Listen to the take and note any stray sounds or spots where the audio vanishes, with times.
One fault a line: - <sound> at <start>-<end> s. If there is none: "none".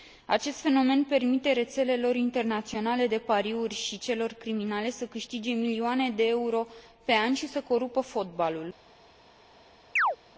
- chirp at 10.0-10.2 s